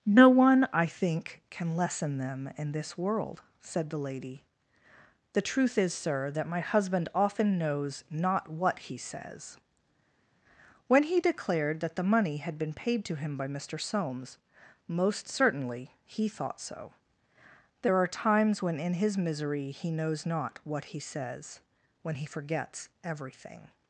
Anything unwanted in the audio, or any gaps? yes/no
no